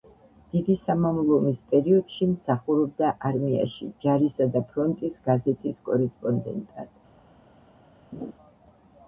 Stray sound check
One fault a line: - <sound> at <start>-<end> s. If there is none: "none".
- laugh at 8.1-8.3 s